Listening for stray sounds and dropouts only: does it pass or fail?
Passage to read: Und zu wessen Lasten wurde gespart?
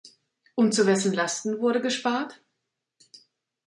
pass